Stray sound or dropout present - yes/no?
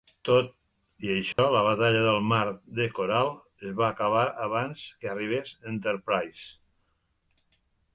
yes